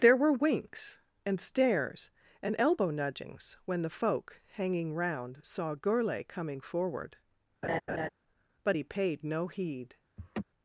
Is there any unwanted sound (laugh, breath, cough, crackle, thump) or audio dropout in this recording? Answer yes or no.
yes